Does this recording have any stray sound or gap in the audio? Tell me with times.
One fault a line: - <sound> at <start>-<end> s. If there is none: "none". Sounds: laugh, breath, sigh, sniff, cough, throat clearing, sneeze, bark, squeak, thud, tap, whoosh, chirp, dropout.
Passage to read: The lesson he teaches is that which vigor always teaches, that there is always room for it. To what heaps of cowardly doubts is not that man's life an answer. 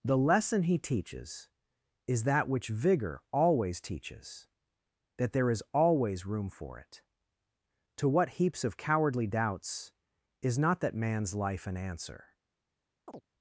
- chirp at 13.1-13.3 s